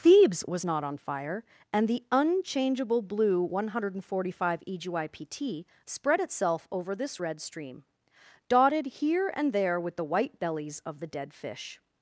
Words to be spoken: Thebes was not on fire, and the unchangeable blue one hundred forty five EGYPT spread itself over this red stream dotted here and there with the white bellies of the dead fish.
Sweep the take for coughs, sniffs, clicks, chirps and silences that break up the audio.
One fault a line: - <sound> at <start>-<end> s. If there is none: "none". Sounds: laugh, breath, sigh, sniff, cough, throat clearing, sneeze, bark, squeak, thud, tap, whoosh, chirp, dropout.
none